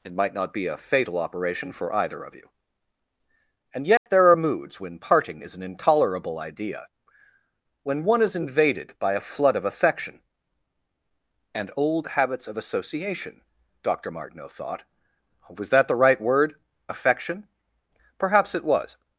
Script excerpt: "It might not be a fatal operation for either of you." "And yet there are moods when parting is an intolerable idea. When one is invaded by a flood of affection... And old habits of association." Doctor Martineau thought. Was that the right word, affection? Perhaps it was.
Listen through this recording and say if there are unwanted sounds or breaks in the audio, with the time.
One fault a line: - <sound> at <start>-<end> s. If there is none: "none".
- dropout at 4.0-4.1 s